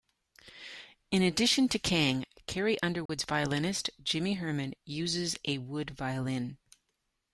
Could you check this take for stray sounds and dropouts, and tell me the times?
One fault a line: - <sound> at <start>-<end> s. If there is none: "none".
- dropout at 3.1-3.1 s